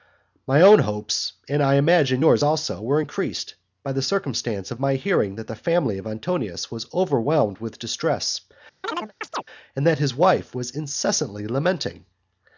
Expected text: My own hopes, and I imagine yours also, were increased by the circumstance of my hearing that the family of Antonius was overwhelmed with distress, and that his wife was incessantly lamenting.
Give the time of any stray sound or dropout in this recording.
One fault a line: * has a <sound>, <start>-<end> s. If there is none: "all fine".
* has a chirp, 8.8-9.4 s